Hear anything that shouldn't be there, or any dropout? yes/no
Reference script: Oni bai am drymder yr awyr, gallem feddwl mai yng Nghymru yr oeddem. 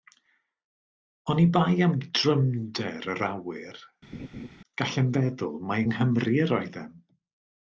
yes